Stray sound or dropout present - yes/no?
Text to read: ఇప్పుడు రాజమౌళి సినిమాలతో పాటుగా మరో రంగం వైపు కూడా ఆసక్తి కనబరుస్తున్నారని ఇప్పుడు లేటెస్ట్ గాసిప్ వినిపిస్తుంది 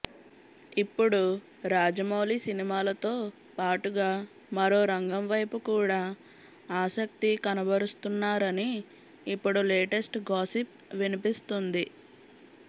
no